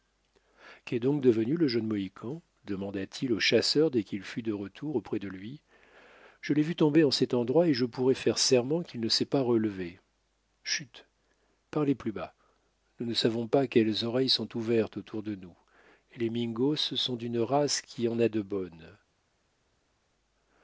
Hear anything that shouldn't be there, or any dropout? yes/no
no